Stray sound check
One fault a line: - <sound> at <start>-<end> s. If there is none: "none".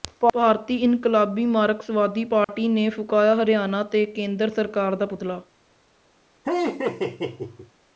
- dropout at 2.4-2.5 s
- laugh at 6.4-7.7 s